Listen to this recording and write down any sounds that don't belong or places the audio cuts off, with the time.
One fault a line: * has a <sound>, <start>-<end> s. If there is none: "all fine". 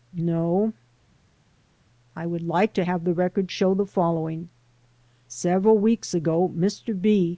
all fine